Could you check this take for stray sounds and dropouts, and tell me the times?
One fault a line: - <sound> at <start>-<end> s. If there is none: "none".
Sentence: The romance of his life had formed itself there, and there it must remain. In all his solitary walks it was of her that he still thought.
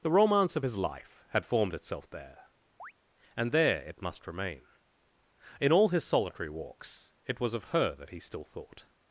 - chirp at 2.8-2.9 s